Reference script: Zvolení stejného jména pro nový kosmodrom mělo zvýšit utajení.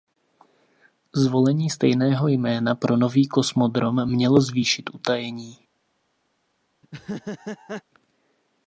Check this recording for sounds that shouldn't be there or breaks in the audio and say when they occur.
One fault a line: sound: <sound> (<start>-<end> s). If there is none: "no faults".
sound: laugh (6.8-7.8 s)